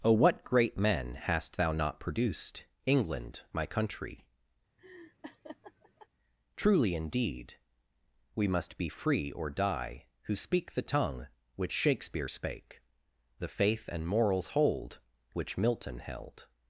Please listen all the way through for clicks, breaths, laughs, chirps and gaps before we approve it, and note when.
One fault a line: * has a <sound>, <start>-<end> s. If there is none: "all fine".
* has a laugh, 4.8-6.1 s